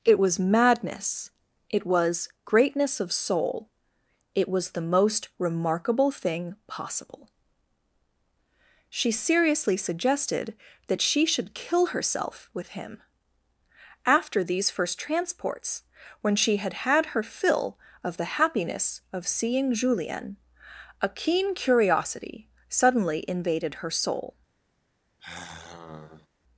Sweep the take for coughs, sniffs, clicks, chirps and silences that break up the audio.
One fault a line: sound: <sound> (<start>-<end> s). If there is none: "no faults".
sound: sigh (25.2-26.3 s)